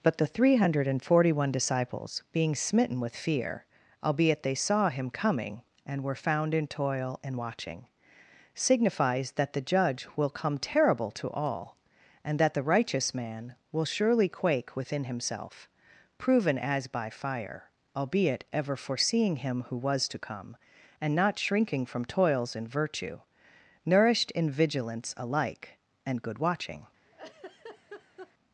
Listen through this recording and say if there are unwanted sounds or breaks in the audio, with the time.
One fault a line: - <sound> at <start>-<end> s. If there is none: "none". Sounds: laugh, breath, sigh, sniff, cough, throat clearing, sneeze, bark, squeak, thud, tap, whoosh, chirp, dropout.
- laugh at 27.0-28.3 s